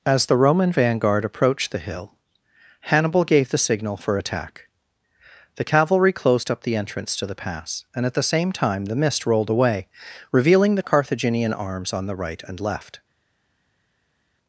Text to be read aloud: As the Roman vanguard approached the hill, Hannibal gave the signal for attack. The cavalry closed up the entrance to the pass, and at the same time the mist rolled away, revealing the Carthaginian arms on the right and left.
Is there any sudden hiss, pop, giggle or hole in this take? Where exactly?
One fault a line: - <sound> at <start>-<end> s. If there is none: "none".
none